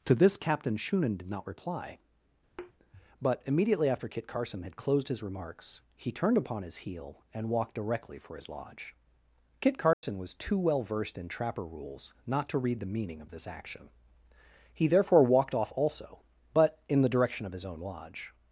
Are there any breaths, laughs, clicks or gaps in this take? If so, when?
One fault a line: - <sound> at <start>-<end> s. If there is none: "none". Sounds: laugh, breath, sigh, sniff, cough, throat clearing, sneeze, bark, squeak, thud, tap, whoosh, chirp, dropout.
- thud at 2.6-2.7 s
- dropout at 9.9-10.0 s